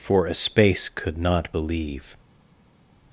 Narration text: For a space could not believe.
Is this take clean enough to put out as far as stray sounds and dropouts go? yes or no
yes